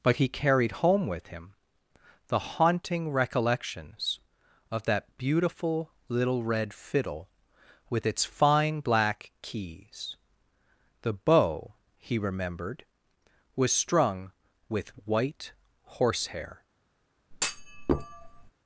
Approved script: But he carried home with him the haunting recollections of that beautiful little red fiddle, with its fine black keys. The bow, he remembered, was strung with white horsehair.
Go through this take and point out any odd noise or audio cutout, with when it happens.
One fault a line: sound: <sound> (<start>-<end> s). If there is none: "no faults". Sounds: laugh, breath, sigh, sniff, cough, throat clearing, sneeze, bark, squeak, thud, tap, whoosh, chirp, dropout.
sound: thud (17.3-18.5 s)